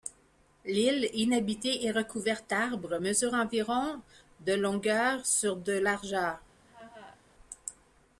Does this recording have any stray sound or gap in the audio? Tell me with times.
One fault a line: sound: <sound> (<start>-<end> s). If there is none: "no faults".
sound: laugh (6.6-7.2 s)